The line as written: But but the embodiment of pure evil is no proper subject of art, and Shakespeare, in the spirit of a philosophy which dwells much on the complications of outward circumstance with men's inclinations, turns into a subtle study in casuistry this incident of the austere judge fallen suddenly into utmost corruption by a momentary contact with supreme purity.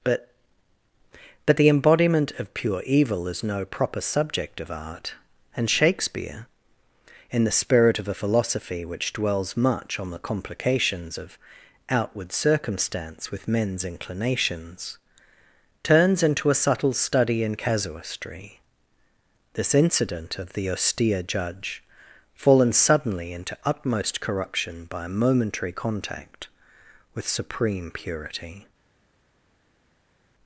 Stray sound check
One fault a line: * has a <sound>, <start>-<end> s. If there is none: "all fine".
all fine